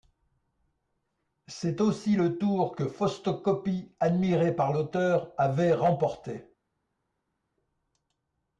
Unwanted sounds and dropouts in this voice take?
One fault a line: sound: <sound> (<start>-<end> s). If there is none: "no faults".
no faults